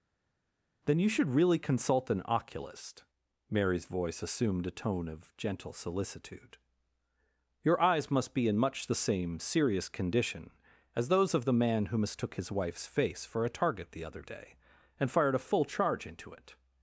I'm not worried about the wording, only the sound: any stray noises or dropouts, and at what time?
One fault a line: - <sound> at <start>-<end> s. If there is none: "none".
none